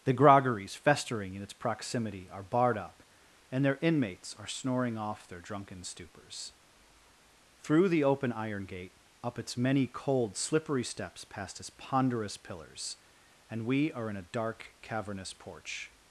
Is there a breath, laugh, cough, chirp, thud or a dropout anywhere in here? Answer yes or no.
no